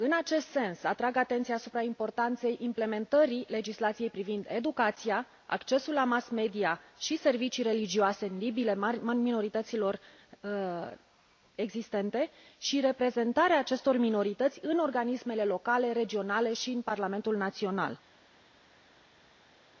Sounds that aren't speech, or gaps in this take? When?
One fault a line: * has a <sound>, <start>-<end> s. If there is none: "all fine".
all fine